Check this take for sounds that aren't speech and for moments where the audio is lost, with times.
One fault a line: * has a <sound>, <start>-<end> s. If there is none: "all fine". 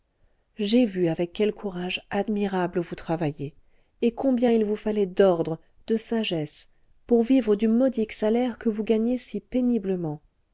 all fine